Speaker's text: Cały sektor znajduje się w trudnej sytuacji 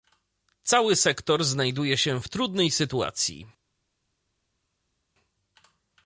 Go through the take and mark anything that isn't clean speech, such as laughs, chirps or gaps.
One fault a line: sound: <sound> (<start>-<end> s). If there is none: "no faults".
no faults